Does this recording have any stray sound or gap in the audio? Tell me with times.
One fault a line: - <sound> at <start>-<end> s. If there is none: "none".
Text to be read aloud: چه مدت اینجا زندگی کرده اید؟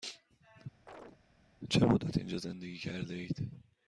- chirp at 0.9-1.2 s